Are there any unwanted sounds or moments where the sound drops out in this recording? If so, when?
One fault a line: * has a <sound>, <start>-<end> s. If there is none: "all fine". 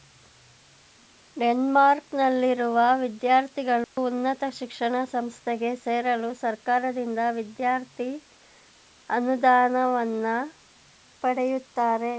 * has a dropout, 3.8-4.0 s